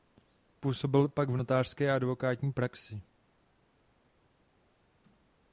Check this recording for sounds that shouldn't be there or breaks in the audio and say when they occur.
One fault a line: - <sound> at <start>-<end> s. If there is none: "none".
none